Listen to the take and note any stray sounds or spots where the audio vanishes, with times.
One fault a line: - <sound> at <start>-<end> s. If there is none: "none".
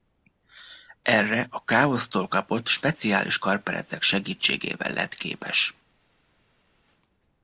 none